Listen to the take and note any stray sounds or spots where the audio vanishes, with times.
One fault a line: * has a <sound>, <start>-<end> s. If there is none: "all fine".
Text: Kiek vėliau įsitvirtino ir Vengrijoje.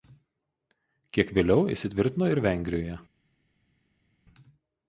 all fine